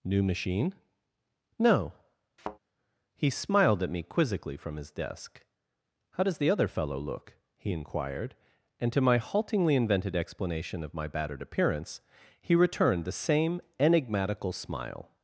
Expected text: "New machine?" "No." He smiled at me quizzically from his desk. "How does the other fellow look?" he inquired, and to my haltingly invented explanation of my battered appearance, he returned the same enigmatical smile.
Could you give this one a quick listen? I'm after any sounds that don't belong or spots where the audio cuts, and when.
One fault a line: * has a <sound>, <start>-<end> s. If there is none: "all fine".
* has a thud, 2.4-2.6 s